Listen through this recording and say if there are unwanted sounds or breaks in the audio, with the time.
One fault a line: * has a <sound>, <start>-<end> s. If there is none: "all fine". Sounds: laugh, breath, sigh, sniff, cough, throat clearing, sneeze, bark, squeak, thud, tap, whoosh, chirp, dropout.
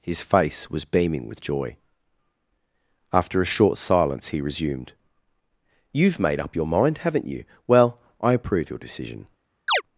* has a chirp, 9.7-9.8 s